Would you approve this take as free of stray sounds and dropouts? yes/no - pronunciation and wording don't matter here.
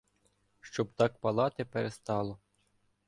yes